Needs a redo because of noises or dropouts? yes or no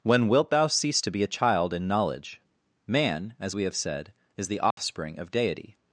yes